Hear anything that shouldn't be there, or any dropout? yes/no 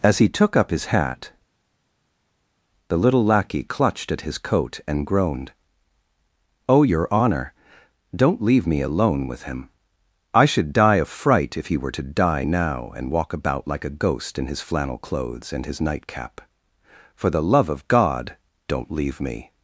no